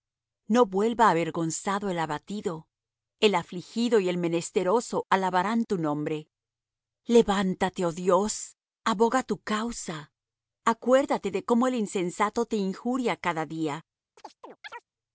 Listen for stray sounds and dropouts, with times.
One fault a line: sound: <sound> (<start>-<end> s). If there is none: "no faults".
sound: chirp (14.2-14.8 s)